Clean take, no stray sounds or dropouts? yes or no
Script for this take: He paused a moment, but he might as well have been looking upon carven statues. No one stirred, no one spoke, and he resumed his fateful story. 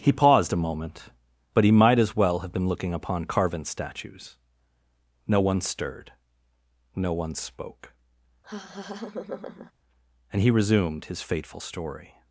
no